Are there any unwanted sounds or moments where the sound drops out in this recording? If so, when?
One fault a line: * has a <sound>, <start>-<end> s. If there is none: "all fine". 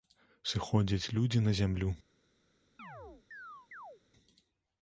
* has a chirp, 2.8-4.0 s